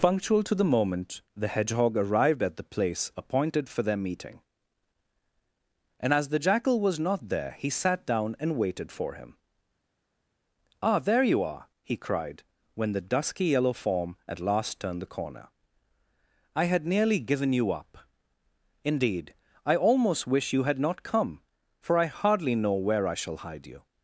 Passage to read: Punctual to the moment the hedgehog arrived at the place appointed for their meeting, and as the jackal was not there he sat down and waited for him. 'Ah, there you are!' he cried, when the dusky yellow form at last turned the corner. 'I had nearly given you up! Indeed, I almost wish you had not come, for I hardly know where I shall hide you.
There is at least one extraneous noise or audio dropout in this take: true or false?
false